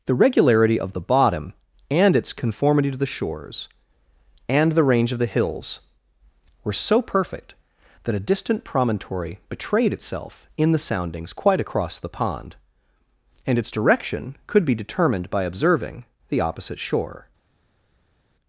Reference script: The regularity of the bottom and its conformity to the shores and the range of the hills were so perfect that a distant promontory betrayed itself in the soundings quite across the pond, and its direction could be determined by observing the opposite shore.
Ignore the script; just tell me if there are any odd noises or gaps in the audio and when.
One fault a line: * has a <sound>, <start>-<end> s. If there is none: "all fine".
all fine